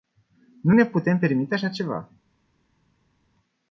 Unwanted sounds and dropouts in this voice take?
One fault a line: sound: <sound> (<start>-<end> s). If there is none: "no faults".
no faults